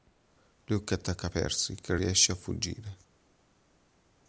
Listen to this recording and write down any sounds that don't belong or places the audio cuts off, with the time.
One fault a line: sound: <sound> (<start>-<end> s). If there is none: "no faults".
no faults